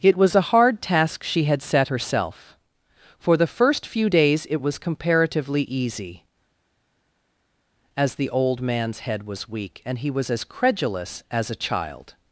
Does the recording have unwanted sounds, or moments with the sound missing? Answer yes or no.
no